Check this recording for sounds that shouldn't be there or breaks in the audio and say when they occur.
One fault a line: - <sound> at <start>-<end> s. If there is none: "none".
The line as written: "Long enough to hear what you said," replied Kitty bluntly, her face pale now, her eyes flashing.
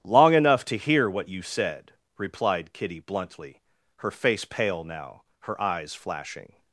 none